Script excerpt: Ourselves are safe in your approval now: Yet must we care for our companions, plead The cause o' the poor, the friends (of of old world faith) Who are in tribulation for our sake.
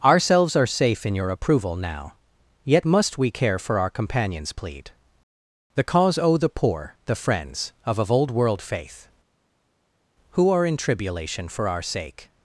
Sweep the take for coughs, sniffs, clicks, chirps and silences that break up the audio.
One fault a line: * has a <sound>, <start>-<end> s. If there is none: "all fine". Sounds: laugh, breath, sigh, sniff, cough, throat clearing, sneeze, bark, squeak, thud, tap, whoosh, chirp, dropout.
all fine